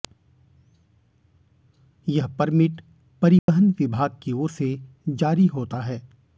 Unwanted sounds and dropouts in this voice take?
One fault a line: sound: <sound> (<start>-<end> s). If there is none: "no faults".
sound: dropout (3.4-3.5 s)